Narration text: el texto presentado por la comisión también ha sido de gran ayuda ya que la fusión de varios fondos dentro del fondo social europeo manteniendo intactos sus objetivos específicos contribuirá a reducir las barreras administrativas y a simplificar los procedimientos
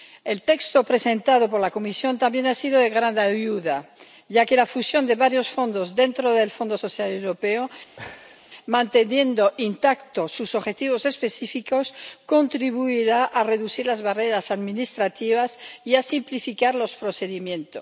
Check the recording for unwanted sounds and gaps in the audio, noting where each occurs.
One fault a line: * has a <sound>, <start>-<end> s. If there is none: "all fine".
* has a laugh, 8.0-8.4 s